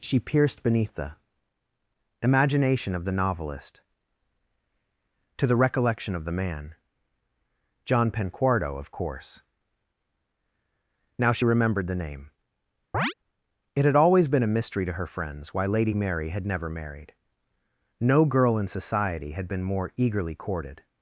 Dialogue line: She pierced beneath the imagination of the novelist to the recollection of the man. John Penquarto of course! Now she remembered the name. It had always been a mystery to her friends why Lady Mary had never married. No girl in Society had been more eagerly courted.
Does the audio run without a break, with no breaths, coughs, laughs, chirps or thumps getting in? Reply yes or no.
no